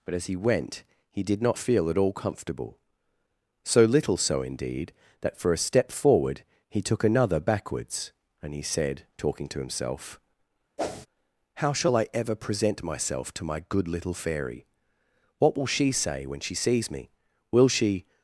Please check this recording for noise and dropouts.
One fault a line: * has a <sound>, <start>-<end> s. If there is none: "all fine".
* has a whoosh, 10.8-11.1 s